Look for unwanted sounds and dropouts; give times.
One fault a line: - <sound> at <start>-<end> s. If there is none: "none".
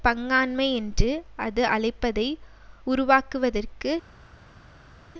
none